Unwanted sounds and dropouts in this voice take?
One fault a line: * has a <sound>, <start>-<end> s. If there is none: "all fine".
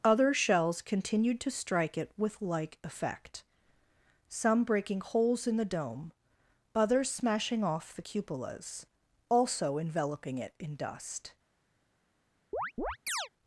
* has a chirp, 12.5-13.3 s